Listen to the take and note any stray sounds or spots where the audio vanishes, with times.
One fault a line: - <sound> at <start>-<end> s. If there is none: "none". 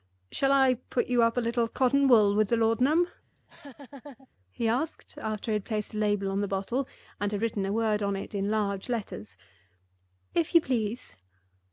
- laugh at 3.3-4.3 s